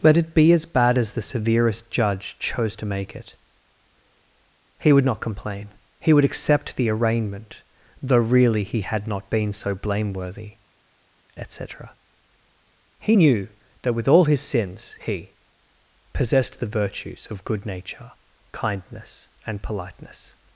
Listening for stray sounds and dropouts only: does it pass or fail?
pass